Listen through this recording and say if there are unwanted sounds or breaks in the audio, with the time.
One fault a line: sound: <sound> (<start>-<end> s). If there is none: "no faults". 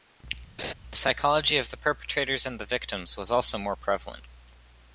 sound: laugh (0.6-0.7 s)